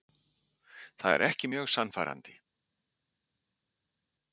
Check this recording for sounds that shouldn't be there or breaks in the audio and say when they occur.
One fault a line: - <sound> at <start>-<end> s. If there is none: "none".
none